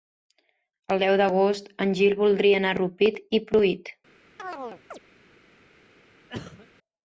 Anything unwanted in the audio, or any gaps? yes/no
yes